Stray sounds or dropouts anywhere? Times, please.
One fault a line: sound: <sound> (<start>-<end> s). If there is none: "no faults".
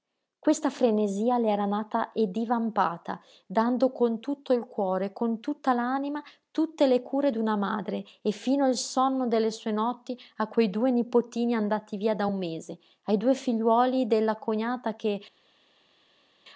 no faults